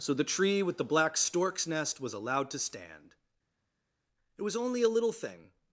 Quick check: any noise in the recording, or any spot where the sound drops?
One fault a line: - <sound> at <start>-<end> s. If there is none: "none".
none